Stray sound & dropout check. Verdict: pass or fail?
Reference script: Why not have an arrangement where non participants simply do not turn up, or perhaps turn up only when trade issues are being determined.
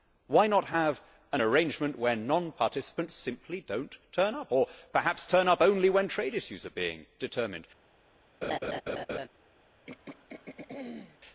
fail